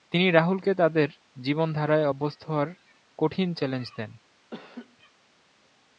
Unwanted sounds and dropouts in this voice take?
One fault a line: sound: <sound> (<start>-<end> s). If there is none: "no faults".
sound: laugh (4.5-5.0 s)